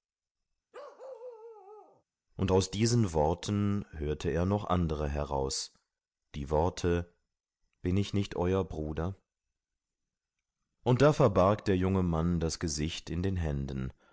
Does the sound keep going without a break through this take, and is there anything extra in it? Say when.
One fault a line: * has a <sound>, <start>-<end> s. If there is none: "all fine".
* has a bark, 0.7-2.0 s